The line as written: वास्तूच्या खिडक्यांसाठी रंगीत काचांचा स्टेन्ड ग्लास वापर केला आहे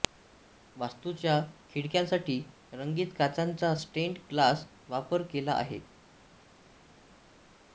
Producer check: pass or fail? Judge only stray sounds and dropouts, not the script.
pass